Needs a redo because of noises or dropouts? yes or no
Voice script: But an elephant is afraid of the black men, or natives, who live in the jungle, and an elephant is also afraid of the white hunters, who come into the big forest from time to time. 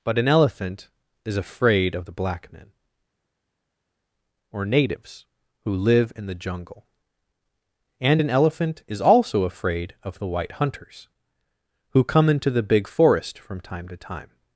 no